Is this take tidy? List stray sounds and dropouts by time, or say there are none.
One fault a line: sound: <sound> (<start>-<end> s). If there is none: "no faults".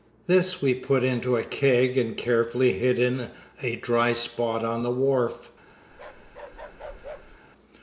sound: bark (5.9-7.4 s)